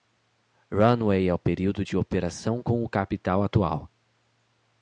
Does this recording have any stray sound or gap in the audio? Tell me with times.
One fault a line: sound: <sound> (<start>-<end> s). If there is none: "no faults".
no faults